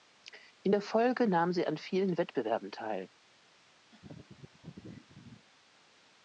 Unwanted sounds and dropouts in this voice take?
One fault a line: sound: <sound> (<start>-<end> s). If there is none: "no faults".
sound: laugh (3.9-5.5 s)